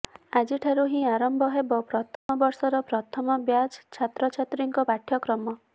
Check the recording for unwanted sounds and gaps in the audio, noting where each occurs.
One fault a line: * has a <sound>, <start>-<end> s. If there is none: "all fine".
* has a dropout, 2.2-2.3 s